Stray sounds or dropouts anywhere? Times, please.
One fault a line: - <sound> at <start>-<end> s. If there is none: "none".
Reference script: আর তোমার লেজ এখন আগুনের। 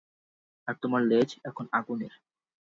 none